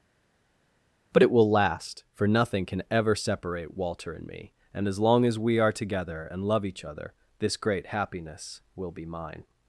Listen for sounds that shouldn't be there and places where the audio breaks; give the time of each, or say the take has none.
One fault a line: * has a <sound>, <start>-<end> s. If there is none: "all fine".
all fine